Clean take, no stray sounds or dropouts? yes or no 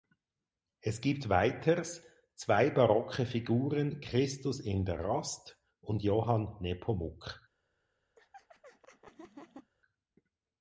no